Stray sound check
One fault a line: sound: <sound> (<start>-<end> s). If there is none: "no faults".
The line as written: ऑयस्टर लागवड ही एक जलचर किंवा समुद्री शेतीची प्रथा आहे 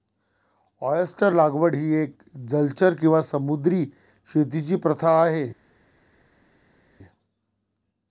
no faults